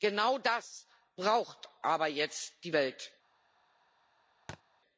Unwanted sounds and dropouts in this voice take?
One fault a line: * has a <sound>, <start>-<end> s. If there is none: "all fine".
* has a thud, 4.5-4.6 s